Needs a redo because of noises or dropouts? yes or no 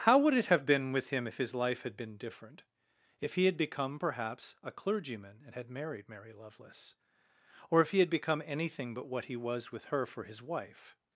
no